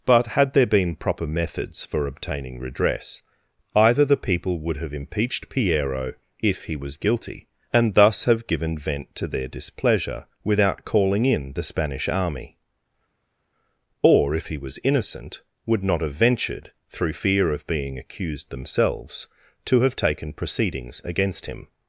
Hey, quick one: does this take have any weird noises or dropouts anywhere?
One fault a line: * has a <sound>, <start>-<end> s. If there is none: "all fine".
all fine